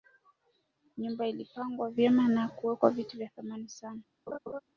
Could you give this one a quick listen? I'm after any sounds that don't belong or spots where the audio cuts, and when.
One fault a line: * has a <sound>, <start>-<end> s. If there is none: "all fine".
* has a laugh, 4.3-4.6 s